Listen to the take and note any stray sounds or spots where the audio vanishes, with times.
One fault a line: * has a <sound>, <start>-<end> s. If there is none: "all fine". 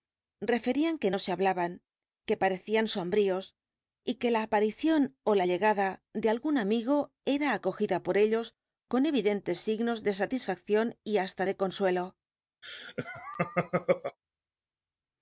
* has a laugh, 12.6-14.2 s